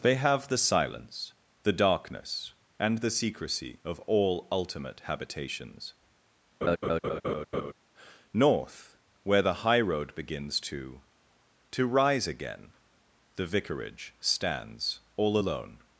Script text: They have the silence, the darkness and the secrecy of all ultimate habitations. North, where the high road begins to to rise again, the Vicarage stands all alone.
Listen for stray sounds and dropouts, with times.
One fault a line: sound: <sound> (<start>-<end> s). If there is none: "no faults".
sound: laugh (6.6-7.7 s)